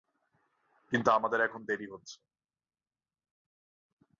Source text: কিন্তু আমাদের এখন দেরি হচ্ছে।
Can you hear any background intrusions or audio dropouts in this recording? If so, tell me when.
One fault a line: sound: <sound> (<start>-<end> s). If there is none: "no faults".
no faults